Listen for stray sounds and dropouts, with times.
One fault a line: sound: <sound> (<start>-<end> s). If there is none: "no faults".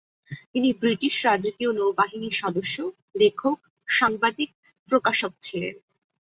no faults